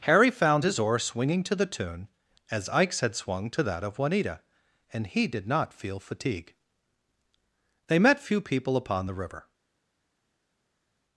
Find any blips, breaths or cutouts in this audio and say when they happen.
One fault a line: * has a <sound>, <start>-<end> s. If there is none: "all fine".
all fine